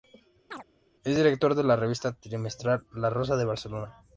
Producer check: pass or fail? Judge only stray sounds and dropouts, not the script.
fail